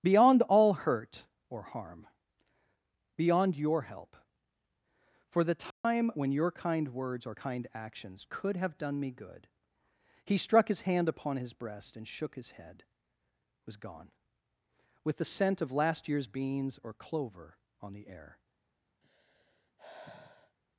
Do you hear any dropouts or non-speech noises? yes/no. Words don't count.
yes